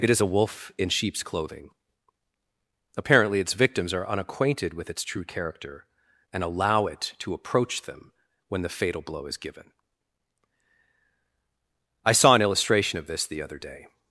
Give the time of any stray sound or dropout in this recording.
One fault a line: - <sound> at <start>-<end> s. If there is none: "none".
none